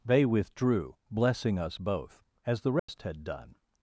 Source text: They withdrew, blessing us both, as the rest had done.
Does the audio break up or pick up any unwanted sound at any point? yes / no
yes